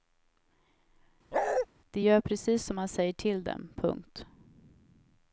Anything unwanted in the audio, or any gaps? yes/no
yes